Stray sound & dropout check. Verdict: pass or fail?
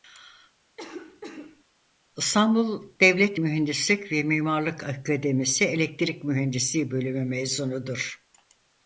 fail